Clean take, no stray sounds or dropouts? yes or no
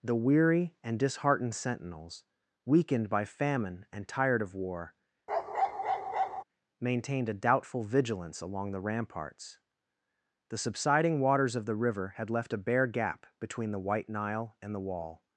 no